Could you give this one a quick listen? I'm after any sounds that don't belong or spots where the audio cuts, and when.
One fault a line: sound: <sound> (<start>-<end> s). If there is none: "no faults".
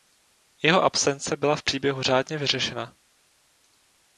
no faults